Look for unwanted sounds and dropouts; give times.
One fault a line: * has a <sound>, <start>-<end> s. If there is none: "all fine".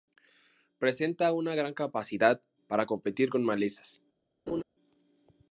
* has a laugh, 4.5-4.6 s